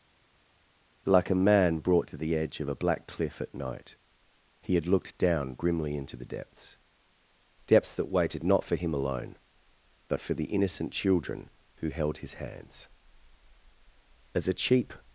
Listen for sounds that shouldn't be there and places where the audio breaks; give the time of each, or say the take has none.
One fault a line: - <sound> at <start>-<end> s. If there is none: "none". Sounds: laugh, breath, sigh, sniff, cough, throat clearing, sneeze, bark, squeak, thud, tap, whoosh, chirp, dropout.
none